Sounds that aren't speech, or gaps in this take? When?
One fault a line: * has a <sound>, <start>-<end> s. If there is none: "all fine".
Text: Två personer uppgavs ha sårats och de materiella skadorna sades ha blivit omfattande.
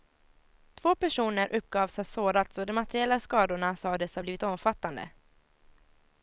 all fine